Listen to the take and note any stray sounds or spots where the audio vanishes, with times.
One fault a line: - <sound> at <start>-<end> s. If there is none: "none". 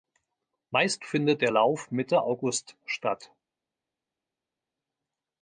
none